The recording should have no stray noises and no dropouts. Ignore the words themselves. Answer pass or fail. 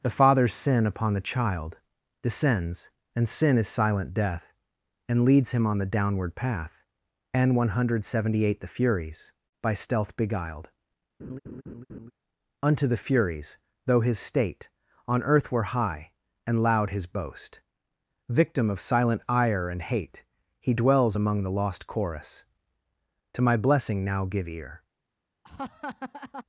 fail